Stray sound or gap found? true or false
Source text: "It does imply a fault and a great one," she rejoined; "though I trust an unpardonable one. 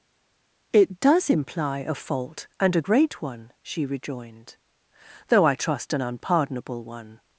false